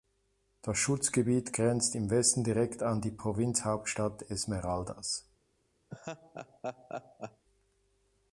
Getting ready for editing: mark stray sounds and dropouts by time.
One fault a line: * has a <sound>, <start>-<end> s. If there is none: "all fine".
* has a laugh, 5.9-7.4 s